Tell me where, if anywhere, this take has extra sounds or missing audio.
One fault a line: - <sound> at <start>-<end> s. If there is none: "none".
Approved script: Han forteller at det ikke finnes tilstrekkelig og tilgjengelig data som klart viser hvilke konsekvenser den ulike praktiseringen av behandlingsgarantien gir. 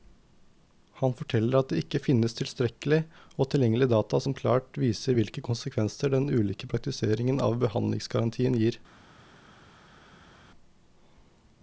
none